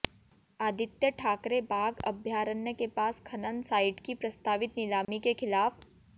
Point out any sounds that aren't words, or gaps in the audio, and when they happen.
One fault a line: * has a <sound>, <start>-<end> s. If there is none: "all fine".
* has a dropout, 5.0-5.1 s